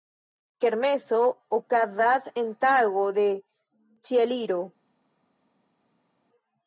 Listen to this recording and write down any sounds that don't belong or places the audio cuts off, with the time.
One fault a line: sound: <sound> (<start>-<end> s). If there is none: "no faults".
no faults